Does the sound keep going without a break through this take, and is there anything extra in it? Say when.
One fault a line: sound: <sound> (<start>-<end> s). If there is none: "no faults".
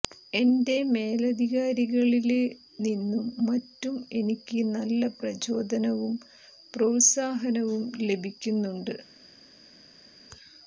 no faults